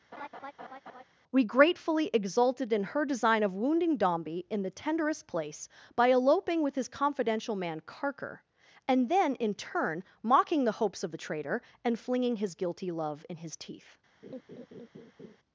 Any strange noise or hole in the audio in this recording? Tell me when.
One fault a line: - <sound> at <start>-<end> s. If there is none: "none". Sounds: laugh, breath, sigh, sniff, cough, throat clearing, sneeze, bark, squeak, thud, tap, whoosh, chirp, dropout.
- laugh at 0.1-1.0 s
- laugh at 14.2-15.4 s